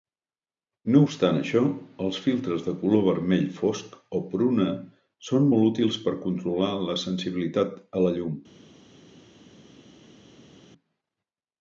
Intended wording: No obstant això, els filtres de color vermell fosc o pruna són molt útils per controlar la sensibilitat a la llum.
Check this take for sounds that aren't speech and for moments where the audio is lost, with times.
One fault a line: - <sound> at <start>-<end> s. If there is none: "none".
none